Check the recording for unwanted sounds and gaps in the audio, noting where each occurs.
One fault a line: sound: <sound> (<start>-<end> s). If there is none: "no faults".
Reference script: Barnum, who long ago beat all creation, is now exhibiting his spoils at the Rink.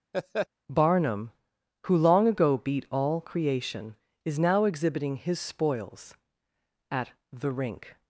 sound: laugh (0.1-0.5 s)